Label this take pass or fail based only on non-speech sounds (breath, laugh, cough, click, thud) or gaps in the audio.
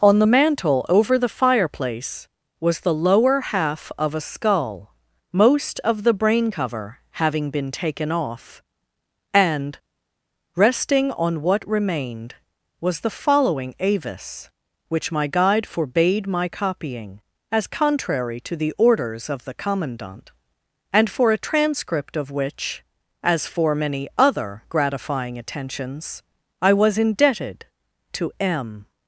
pass